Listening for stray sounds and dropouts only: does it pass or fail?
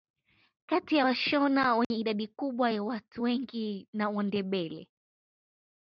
fail